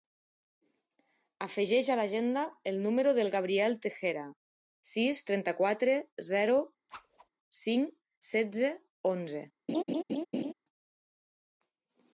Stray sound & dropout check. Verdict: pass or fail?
fail